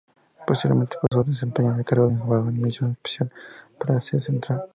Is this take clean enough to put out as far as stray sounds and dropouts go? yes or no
no